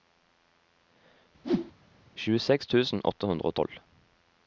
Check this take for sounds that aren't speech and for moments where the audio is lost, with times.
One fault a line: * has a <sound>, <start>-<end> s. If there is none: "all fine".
* has a whoosh, 1.4-1.7 s